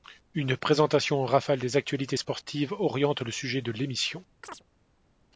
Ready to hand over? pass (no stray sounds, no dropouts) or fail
fail